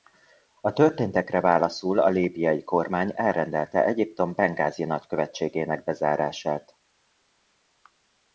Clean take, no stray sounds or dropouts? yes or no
yes